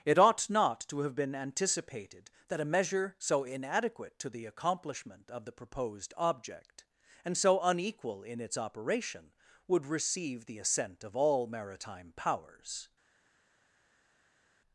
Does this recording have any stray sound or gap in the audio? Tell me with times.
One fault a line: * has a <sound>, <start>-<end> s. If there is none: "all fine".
all fine